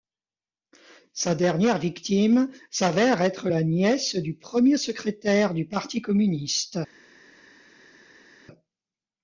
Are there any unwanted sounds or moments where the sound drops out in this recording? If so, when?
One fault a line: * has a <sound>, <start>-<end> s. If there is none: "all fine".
all fine